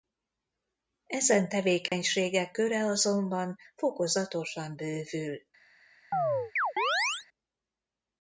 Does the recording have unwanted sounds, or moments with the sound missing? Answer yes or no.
yes